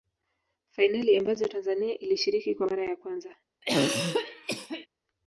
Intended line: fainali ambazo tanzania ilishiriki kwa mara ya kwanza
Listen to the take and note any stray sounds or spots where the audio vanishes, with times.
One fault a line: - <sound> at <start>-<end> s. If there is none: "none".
- throat clearing at 3.6-4.9 s